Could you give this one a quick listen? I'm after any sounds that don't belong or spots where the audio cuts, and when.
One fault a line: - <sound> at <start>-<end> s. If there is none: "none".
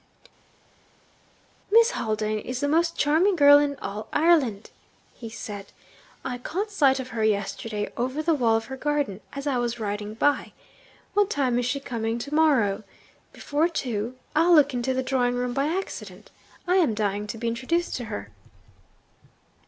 none